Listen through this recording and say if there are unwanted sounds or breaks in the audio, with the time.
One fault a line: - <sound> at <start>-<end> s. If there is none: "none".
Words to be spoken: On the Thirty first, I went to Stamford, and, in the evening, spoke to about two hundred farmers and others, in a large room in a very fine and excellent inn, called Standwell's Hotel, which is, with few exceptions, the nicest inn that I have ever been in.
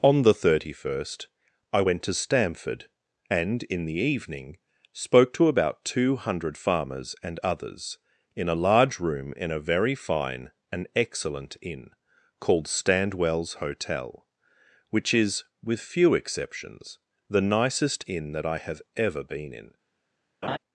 - laugh at 20.4-20.6 s